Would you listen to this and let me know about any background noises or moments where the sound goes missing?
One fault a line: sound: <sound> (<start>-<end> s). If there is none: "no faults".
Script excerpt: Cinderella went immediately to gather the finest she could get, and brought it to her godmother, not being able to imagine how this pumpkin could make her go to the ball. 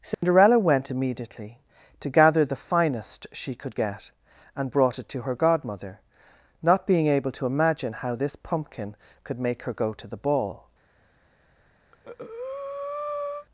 sound: dropout (0.1-0.2 s)
sound: breath (11.9-13.5 s)